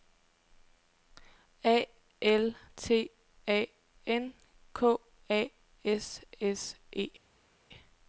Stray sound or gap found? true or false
false